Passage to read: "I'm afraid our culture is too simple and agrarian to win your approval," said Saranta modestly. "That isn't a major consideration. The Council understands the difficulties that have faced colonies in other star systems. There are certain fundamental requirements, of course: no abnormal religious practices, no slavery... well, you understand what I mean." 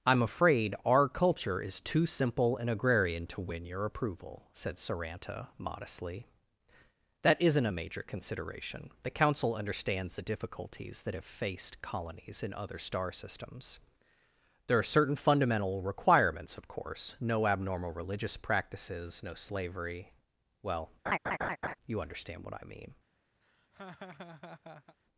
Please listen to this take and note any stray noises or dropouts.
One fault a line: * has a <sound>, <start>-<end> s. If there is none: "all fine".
* has a laugh, 21.1-21.8 s
* has a laugh, 23.4-25.0 s